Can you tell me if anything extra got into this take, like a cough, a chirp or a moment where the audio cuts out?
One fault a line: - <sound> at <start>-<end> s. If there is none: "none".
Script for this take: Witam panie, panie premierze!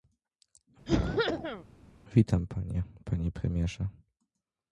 - cough at 0.9-1.6 s